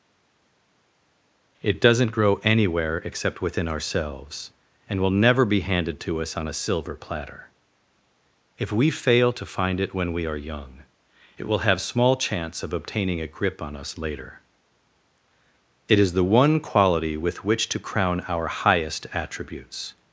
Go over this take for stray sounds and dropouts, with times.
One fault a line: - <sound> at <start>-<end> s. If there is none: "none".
none